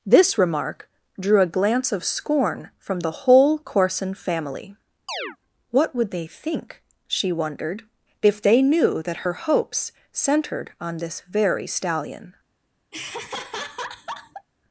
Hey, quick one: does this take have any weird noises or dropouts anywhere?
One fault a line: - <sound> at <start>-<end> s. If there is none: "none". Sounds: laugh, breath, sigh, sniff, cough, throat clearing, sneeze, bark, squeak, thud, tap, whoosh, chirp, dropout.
- chirp at 5.1-5.4 s
- laugh at 12.9-14.5 s